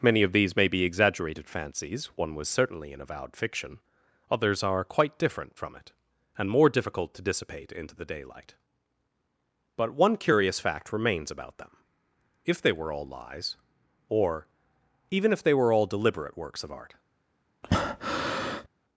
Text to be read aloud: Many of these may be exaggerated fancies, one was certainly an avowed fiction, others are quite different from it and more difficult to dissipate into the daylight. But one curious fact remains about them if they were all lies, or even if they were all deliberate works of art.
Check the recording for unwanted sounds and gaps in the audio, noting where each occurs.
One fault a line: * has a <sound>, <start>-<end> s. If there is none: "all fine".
* has a breath, 17.6-18.7 s